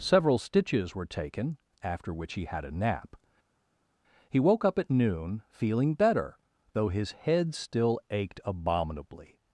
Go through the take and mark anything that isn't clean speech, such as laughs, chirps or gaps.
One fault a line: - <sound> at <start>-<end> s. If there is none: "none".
none